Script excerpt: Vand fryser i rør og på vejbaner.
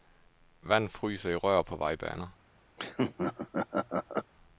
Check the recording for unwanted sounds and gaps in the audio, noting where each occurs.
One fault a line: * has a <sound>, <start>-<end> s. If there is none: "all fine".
* has a laugh, 2.8-4.3 s